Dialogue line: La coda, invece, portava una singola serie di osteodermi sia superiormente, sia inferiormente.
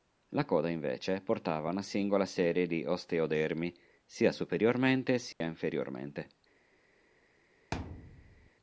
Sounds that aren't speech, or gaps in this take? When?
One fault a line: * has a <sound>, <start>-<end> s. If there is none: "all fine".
* has a dropout, 5.3-5.4 s
* has a thud, 7.7-8.5 s